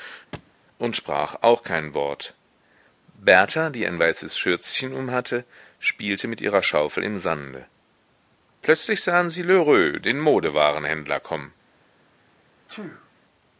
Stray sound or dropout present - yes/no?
yes